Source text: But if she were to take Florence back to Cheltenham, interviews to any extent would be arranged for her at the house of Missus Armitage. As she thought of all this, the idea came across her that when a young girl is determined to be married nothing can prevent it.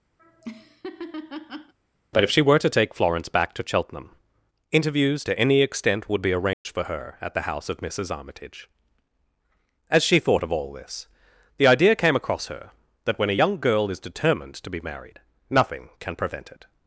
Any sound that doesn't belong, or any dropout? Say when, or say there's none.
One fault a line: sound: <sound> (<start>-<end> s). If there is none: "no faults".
sound: laugh (0.2-1.7 s)
sound: dropout (6.5-6.7 s)